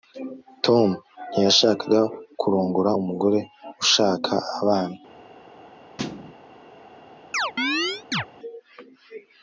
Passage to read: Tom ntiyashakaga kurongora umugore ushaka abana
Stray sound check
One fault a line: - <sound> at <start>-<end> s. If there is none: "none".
- thud at 6.0-6.3 s
- chirp at 7.3-8.3 s